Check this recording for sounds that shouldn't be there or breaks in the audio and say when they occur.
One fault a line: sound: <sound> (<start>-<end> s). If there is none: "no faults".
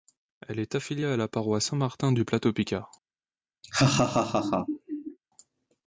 sound: laugh (3.6-5.2 s)